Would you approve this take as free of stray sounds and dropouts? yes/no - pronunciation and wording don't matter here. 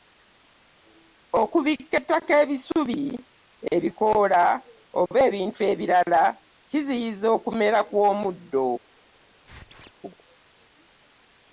no